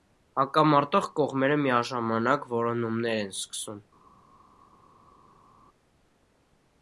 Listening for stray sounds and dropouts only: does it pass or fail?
pass